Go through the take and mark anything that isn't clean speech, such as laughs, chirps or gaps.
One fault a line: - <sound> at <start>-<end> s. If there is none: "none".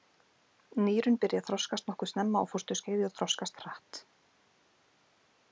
none